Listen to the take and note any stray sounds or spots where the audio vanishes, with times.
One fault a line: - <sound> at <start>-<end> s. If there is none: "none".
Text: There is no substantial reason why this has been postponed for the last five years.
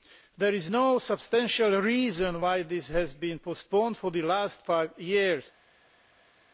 none